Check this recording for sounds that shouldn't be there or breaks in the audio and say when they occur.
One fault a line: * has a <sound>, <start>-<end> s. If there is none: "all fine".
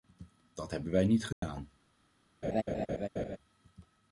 * has a dropout, 1.3-1.4 s
* has a laugh, 2.4-3.4 s